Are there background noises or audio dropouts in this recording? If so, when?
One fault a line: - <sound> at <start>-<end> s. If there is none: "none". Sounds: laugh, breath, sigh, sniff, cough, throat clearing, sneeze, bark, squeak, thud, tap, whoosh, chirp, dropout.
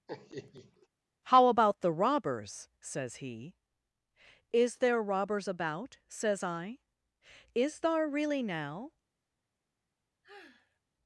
- laugh at 0.1-0.9 s
- sigh at 10.2-10.8 s